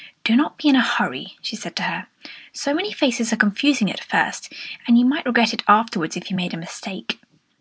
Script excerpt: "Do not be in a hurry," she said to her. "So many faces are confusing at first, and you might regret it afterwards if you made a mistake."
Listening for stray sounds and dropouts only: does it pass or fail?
pass